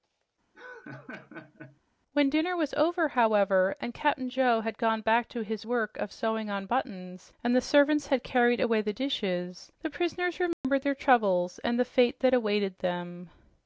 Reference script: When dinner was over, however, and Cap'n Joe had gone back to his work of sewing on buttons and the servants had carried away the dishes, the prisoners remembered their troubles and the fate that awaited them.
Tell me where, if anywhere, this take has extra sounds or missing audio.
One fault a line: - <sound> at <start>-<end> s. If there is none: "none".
- laugh at 0.5-1.8 s
- dropout at 10.5-10.6 s